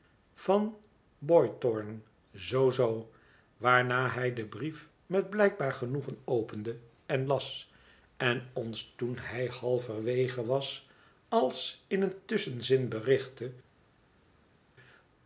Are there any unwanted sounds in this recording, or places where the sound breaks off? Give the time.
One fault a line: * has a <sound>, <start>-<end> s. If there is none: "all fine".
all fine